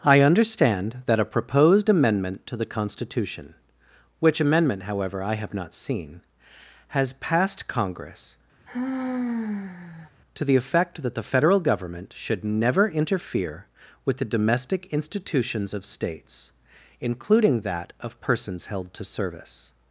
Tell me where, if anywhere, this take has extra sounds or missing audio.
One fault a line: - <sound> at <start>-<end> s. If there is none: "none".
- sigh at 8.7-10.1 s